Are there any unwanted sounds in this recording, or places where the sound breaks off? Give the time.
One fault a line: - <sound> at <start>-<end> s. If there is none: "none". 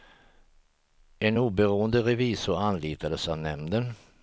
none